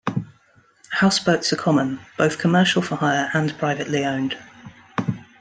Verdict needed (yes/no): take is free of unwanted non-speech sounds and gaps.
yes